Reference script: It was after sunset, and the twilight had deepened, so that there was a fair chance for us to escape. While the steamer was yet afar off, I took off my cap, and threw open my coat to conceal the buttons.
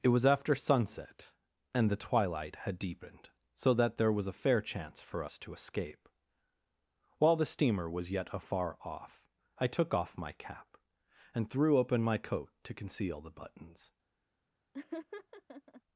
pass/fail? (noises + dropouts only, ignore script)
fail